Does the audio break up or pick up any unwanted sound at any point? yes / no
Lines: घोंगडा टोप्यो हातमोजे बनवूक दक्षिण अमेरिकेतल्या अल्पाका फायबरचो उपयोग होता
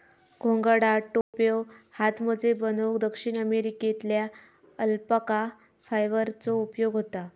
yes